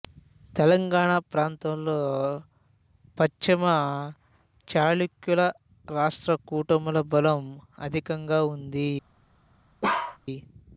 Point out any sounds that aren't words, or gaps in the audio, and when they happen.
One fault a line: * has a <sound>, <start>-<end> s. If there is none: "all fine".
* has a bark, 9.8-10.2 s